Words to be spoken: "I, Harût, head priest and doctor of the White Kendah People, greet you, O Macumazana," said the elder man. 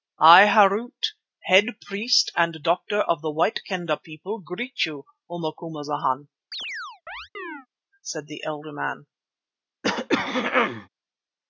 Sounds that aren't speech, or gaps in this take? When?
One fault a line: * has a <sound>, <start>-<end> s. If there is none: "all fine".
* has a chirp, 6.5-7.7 s
* has a throat clearing, 9.8-10.9 s